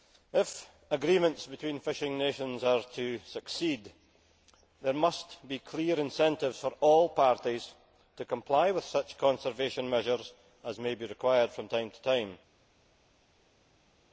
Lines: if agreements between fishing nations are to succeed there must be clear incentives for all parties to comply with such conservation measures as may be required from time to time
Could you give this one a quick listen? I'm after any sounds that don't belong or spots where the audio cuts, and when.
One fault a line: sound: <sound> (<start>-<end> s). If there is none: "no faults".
no faults